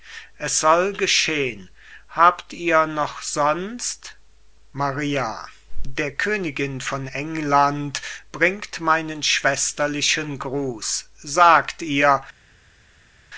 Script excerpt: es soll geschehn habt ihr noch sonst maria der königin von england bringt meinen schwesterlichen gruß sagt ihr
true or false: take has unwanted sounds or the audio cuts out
false